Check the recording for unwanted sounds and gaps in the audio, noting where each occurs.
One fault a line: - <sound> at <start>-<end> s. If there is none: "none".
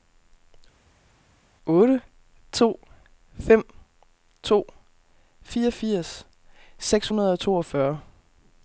none